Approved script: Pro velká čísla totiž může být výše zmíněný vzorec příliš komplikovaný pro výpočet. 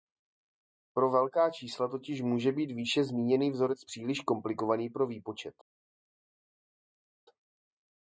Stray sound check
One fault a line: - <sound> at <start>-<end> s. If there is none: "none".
none